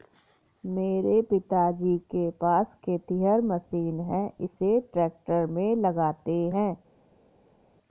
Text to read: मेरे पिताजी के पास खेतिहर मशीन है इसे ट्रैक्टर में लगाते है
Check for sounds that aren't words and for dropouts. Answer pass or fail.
pass